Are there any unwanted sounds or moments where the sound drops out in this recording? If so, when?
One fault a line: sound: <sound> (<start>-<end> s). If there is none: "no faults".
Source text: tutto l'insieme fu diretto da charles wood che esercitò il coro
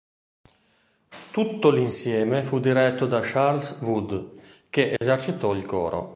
sound: dropout (5.0-5.0 s)